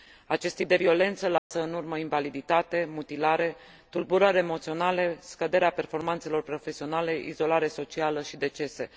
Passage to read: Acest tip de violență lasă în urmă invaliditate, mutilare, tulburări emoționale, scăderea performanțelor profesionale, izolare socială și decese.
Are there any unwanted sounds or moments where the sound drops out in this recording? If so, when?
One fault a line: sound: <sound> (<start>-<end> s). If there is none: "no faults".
sound: dropout (1.4-1.5 s)